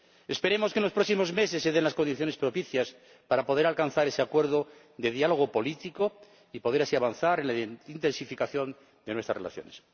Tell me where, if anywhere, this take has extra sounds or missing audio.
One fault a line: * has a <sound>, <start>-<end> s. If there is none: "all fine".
all fine